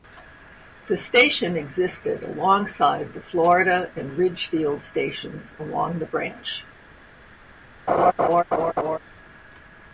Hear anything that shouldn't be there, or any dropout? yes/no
yes